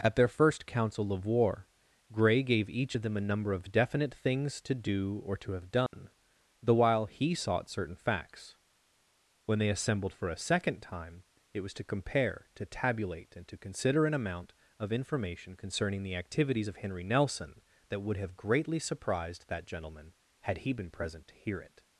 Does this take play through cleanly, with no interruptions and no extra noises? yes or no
no